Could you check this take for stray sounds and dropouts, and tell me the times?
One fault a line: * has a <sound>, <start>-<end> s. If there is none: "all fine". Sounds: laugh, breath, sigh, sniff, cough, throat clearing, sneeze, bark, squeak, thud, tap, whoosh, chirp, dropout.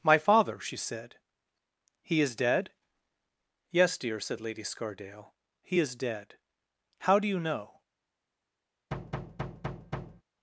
* has a thud, 8.9-10.2 s